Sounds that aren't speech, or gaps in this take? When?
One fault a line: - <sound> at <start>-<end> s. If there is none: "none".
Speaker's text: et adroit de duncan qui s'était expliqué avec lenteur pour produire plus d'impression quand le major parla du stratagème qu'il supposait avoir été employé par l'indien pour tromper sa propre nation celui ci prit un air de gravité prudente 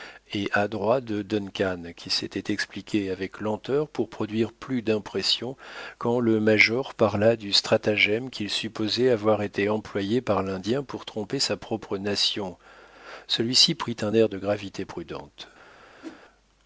- whoosh at 16.0-16.2 s